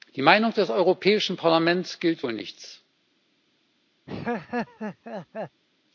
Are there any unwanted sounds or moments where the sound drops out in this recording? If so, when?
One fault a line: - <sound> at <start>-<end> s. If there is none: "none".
- laugh at 4.1-5.6 s